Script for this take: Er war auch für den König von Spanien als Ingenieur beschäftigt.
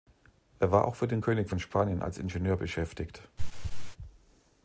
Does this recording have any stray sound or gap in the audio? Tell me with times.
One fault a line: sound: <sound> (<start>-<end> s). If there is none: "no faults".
sound: throat clearing (3.4-4.0 s)